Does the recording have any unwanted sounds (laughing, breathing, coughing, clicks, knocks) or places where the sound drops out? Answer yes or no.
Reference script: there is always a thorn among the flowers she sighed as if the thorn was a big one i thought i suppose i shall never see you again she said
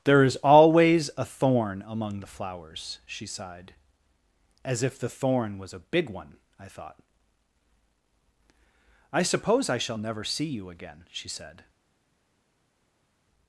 no